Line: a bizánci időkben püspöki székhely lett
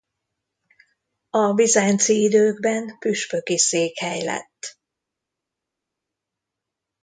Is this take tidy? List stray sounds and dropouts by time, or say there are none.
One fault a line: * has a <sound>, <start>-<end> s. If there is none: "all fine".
all fine